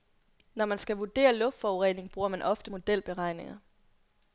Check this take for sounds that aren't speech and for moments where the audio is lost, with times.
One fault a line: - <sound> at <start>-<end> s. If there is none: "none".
none